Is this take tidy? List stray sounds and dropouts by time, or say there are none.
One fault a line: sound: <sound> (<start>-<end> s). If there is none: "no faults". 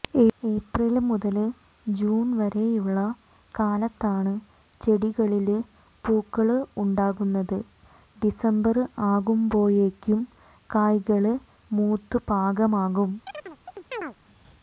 sound: chirp (13.3-14.2 s)